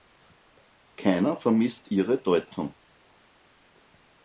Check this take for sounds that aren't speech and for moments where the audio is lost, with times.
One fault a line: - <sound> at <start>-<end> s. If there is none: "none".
none